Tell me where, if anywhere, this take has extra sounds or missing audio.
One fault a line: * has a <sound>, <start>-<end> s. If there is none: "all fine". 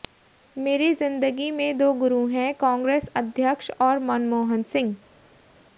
all fine